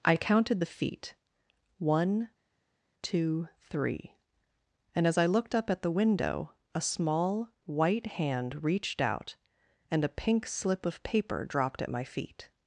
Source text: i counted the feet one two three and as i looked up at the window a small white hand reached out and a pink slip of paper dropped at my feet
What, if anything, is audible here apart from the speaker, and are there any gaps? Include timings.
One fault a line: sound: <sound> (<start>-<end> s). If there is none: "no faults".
no faults